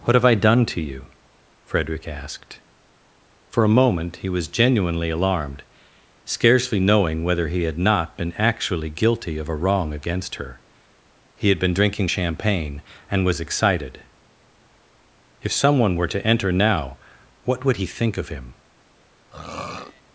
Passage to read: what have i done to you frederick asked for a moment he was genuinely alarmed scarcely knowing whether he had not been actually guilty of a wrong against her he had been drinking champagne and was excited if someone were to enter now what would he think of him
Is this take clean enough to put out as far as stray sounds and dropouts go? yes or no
no